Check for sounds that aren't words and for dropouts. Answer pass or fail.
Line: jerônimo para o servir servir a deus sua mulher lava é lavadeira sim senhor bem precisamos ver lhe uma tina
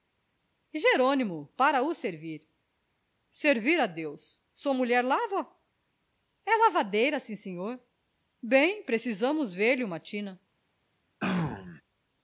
fail